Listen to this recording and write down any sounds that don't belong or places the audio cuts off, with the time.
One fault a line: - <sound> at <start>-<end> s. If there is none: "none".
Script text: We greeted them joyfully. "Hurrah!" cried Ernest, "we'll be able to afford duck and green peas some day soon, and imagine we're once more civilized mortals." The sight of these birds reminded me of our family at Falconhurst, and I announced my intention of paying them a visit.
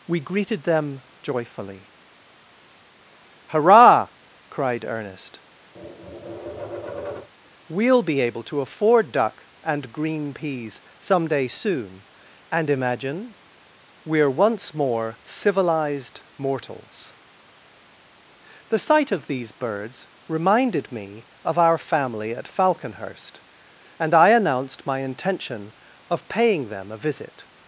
- tap at 5.7-7.3 s